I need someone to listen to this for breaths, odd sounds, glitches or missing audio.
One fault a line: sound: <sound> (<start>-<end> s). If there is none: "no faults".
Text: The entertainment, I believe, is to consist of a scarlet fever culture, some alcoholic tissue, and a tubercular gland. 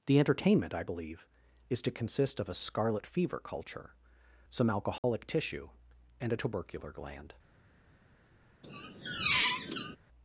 sound: dropout (5.0-5.0 s)
sound: squeak (8.6-10.0 s)